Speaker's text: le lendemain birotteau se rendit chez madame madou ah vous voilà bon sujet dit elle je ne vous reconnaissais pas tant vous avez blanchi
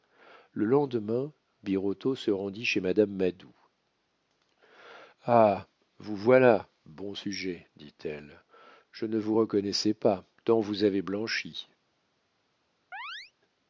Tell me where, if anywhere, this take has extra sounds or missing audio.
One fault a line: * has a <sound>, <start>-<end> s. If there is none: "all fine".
* has a chirp, 12.9-13.3 s